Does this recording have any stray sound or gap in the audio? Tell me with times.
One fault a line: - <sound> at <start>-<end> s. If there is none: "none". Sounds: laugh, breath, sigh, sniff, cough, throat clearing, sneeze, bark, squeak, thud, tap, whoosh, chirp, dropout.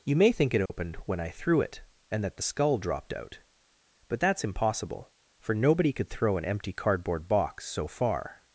- dropout at 0.7-0.7 s